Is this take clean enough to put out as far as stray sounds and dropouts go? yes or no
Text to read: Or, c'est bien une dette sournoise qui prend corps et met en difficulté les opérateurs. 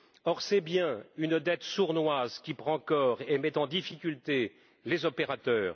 yes